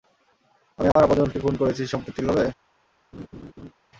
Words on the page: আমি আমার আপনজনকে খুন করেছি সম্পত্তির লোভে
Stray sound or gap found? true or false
true